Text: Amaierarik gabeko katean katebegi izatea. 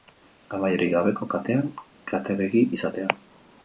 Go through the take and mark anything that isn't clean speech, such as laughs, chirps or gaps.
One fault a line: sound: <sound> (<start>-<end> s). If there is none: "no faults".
no faults